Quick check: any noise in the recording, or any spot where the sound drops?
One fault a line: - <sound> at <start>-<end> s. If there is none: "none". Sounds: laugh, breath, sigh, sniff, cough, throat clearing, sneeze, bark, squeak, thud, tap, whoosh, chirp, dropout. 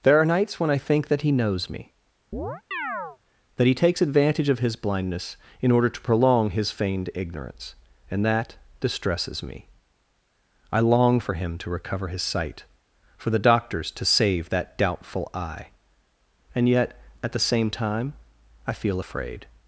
- chirp at 2.3-3.2 s